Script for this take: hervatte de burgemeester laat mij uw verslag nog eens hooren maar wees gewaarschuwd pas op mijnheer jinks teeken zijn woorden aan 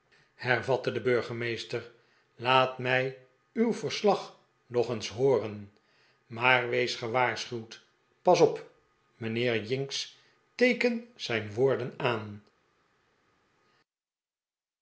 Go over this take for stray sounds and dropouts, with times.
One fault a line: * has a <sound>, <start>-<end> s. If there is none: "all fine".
all fine